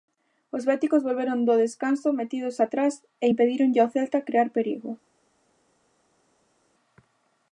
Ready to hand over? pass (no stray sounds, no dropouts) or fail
pass